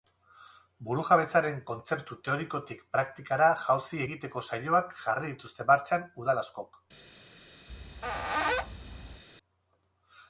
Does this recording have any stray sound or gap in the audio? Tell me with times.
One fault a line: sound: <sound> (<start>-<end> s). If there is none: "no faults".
sound: squeak (7.7-9.2 s)